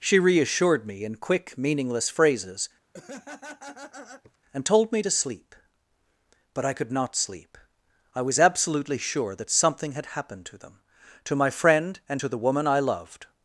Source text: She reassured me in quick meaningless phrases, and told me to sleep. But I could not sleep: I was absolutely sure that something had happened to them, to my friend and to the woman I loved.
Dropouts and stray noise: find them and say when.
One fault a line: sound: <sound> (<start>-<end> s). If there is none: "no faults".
sound: laugh (2.9-4.4 s)